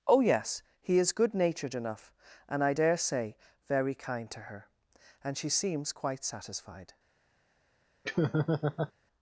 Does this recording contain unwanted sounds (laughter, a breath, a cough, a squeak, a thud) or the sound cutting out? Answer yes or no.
yes